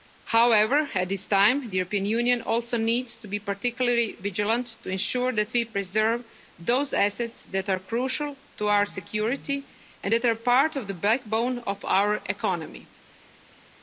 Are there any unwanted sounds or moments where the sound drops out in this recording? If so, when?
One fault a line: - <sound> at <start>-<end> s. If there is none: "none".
none